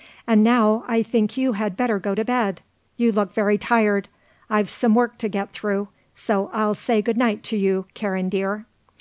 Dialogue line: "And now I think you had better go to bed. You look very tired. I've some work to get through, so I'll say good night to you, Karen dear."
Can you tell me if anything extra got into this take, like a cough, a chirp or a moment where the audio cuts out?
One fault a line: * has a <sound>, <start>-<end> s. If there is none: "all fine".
all fine